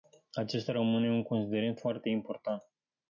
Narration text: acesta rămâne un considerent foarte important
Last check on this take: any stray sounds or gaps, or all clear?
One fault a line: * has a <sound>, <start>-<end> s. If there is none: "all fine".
all fine